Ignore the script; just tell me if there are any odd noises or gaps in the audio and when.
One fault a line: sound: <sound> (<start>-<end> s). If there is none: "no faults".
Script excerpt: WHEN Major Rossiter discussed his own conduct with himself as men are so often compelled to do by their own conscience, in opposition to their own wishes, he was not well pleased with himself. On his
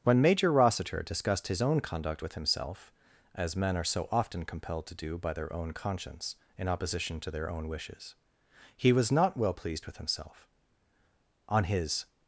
no faults